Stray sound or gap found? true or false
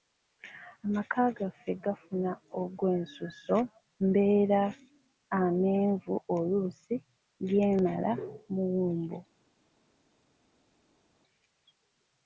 false